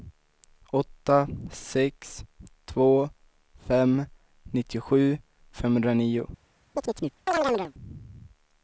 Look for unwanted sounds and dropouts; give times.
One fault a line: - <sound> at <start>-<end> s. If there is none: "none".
- chirp at 6.7-7.7 s